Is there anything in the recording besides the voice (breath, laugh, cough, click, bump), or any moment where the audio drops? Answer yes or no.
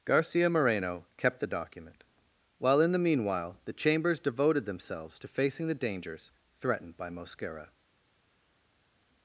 no